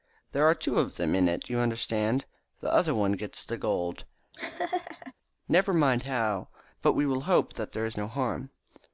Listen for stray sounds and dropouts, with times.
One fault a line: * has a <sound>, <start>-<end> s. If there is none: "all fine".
* has a laugh, 4.3-5.1 s